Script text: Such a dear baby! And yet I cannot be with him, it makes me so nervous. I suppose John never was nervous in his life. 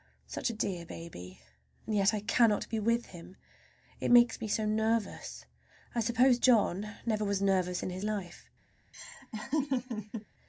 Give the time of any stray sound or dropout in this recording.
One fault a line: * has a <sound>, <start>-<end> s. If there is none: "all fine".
* has a laugh, 8.9-10.3 s